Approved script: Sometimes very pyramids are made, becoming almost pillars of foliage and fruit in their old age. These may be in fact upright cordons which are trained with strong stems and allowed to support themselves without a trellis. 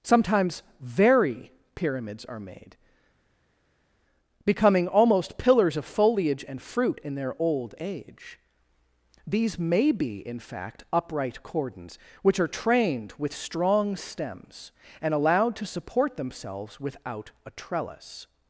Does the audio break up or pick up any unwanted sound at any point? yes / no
no